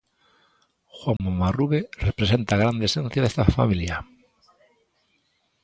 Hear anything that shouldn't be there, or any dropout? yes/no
yes